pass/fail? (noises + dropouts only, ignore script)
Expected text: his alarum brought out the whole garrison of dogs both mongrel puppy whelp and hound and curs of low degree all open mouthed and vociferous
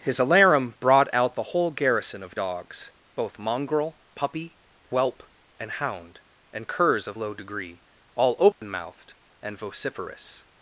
fail